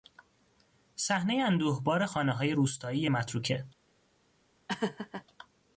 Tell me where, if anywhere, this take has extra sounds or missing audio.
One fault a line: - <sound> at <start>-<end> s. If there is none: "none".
- laugh at 4.7-5.2 s